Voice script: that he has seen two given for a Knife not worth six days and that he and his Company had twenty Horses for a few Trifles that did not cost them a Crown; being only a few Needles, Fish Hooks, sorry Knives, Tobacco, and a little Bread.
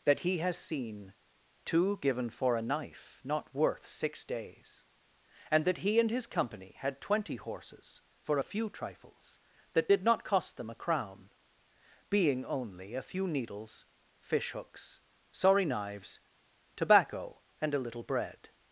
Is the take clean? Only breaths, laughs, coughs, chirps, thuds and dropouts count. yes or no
yes